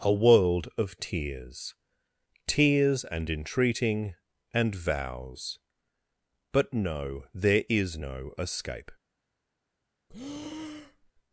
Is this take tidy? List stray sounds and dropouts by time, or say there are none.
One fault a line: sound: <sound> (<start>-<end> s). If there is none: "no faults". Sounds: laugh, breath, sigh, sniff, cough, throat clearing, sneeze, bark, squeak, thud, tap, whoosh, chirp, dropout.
sound: breath (10.1-11.1 s)